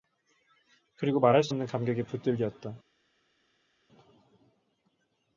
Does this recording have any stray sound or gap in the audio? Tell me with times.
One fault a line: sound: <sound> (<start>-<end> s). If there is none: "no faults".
no faults